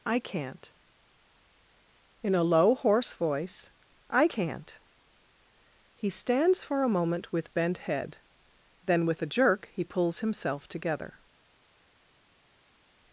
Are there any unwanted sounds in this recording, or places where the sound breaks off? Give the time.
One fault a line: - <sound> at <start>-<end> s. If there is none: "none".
none